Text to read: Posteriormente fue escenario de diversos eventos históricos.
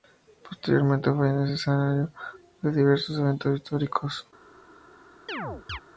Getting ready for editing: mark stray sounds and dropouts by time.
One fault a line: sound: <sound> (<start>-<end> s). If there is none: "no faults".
sound: chirp (5.3-5.8 s)